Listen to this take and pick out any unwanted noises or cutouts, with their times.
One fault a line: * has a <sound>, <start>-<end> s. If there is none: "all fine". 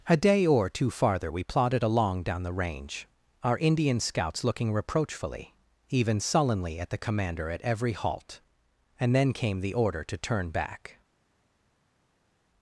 all fine